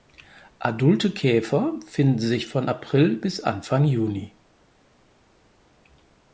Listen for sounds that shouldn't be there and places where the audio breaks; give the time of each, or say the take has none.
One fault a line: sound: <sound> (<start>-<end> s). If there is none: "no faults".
no faults